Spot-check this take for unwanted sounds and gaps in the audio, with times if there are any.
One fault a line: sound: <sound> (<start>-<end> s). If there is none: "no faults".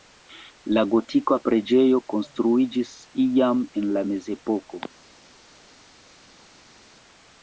no faults